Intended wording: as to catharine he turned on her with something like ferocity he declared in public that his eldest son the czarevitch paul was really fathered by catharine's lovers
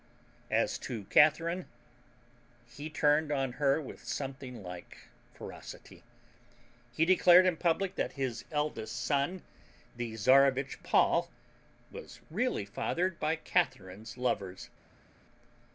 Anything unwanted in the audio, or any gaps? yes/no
no